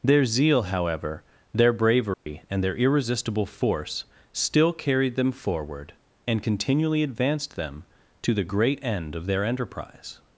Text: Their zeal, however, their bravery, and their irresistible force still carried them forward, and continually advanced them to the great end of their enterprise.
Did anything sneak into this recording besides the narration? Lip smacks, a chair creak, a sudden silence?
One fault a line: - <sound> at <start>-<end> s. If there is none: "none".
- dropout at 2.1-2.3 s